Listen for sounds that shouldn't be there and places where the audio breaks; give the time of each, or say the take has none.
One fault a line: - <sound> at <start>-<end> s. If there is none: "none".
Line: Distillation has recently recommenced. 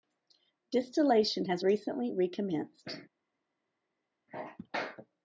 none